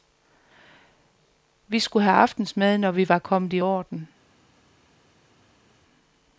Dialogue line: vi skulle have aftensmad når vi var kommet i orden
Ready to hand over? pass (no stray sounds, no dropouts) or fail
pass